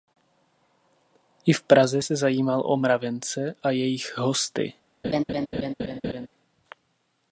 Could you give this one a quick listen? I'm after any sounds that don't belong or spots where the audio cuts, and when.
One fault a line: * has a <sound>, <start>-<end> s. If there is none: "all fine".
* has a laugh, 5.0-6.3 s